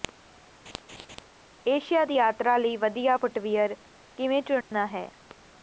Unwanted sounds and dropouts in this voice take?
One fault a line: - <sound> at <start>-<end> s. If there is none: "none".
- laugh at 0.7-1.3 s
- dropout at 4.6-4.7 s